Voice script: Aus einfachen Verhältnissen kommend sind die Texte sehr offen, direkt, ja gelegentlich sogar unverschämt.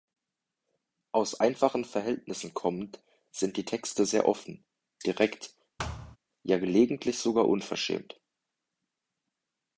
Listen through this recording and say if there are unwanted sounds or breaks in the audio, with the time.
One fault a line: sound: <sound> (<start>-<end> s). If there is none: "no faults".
sound: thud (5.8-6.2 s)